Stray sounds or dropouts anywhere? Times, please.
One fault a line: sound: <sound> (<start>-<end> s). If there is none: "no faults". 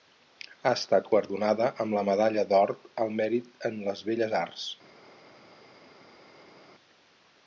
no faults